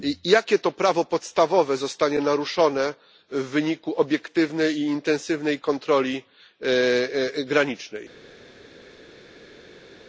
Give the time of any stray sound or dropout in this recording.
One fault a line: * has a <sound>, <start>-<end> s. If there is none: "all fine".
all fine